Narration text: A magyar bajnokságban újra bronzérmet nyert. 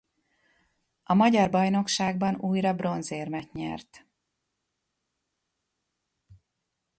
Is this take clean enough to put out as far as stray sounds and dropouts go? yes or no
yes